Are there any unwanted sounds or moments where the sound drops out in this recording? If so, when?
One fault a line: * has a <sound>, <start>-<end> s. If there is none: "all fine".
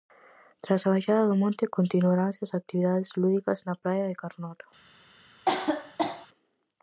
* has a cough, 5.5-6.3 s